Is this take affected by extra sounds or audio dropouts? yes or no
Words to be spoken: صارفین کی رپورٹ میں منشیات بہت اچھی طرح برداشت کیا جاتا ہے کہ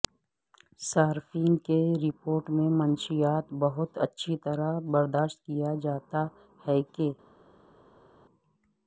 no